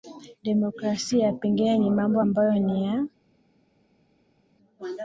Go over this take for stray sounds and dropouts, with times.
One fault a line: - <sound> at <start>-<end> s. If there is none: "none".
none